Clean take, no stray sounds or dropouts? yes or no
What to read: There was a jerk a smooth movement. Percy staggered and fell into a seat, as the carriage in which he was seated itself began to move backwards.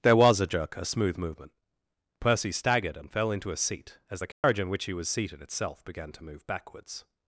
no